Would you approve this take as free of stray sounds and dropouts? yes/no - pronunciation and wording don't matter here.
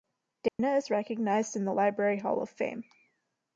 no